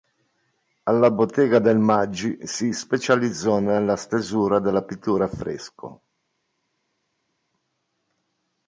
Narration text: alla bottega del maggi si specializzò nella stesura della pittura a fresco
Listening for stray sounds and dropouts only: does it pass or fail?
pass